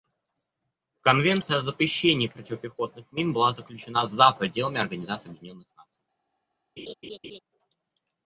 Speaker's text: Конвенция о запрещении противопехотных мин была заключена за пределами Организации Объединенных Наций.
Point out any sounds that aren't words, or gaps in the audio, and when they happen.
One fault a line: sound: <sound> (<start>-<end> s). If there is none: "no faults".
sound: laugh (6.8-7.4 s)